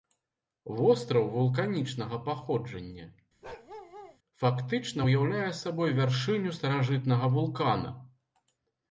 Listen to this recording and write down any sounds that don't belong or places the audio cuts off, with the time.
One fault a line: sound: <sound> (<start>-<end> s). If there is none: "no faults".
sound: bark (3.4-4.2 s)